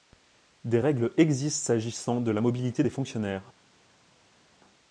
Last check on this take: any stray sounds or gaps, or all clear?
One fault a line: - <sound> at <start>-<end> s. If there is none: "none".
none